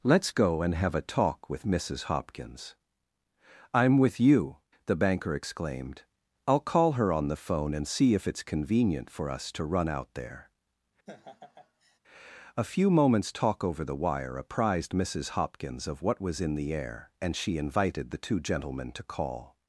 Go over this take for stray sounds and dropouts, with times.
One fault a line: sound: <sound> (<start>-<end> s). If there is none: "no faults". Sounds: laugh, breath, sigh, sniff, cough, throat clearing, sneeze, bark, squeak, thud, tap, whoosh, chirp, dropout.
sound: laugh (11.1-12.0 s)